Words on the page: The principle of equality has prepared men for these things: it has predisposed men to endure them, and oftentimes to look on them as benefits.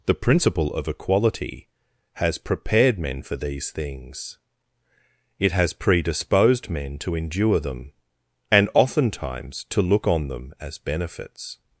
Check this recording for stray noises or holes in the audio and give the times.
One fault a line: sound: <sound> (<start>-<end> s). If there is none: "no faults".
no faults